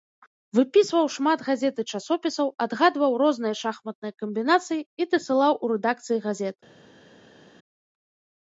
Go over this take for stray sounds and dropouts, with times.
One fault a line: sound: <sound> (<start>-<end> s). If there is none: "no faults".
no faults